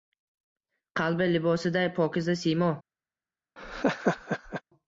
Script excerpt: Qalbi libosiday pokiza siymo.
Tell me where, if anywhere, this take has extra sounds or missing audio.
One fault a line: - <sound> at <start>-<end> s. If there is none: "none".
- laugh at 3.6-4.6 s